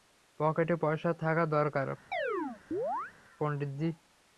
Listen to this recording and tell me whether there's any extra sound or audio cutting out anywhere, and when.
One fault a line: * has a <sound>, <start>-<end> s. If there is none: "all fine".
* has a chirp, 2.1-3.1 s